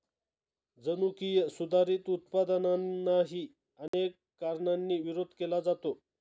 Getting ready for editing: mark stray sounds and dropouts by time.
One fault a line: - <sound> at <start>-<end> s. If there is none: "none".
- dropout at 3.9-3.9 s